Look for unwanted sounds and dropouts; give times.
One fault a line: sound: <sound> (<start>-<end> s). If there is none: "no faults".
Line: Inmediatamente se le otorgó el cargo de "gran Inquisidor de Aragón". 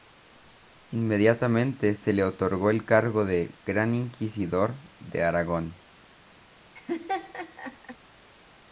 sound: laugh (6.7-8.0 s)